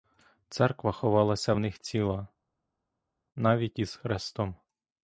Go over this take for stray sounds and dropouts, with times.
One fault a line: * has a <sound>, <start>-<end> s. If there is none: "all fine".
all fine